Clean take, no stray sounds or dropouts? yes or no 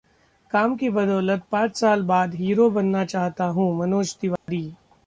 no